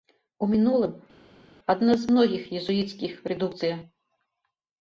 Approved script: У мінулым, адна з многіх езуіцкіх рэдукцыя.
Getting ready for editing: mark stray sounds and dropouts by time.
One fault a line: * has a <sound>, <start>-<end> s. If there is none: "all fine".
all fine